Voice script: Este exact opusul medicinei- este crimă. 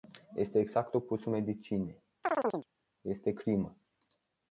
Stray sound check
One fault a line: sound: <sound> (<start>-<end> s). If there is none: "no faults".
sound: chirp (2.2-2.7 s)